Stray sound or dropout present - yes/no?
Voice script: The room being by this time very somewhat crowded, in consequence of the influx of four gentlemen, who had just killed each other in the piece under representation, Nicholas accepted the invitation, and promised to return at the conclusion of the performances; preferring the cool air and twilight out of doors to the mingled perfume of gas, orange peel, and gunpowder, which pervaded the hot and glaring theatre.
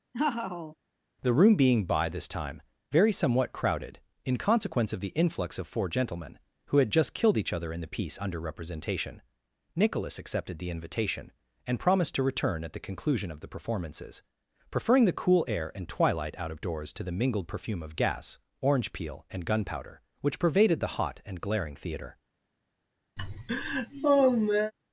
yes